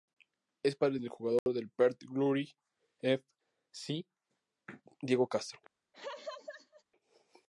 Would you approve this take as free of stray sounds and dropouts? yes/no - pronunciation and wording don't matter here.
no